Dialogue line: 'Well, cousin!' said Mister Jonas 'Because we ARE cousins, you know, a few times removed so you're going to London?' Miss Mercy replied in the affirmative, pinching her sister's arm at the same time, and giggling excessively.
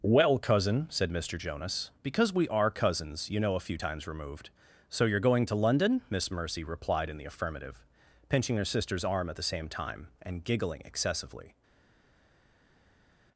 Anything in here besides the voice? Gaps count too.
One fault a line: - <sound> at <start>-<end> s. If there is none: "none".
none